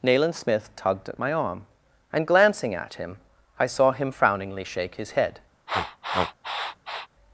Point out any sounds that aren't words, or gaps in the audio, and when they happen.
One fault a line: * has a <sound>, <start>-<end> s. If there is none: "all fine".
* has a sniff, 5.7-7.1 s